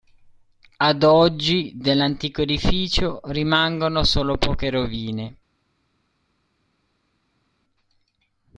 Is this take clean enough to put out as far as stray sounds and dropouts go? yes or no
yes